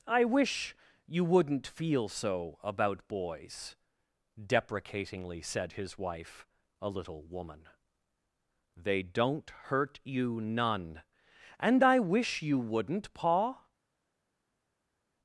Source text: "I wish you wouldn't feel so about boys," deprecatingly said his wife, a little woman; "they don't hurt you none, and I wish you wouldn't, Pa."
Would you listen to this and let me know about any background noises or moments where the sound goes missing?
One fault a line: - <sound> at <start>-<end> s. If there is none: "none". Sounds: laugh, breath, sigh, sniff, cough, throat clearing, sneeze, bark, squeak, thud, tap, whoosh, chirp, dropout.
none